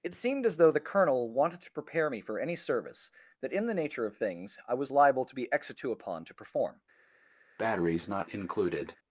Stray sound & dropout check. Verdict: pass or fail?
fail